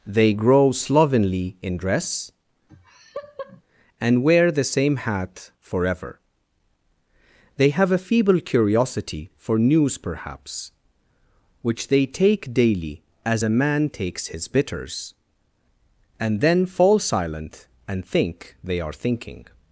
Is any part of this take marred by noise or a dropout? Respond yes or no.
yes